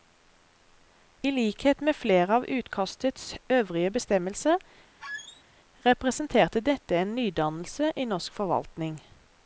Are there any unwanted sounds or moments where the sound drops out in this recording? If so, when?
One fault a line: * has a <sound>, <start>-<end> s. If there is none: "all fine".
* has a squeak, 5.0-5.4 s